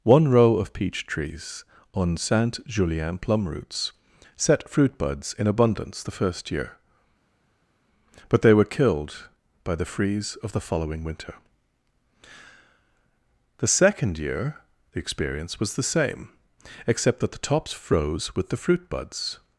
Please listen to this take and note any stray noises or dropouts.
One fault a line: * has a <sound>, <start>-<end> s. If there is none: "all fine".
all fine